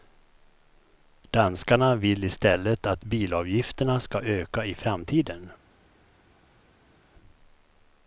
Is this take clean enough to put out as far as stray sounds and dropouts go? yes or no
yes